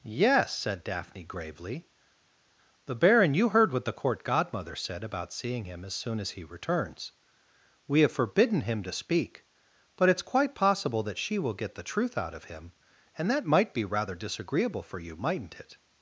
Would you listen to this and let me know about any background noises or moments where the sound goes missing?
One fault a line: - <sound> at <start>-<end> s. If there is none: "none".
none